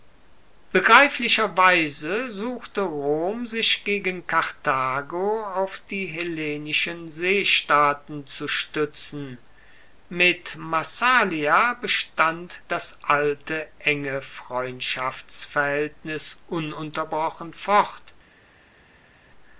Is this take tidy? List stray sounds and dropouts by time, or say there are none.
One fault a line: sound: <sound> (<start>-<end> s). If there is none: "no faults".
no faults